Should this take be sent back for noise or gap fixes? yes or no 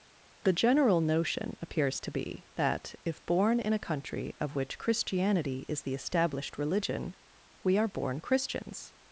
no